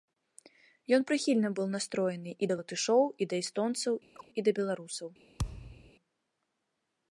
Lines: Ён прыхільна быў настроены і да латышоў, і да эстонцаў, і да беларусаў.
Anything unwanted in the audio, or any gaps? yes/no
yes